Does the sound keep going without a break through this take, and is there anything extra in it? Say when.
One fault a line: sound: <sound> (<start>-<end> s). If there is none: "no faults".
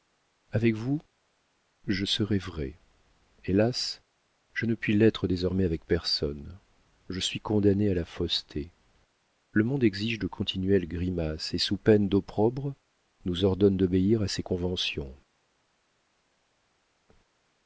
no faults